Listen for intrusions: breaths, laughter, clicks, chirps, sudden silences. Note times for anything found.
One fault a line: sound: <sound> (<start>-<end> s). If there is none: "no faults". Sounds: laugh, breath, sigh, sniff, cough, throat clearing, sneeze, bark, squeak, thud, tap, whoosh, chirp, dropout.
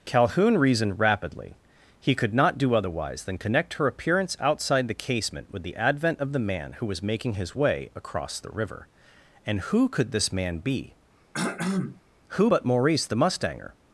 sound: throat clearing (11.3-12.0 s)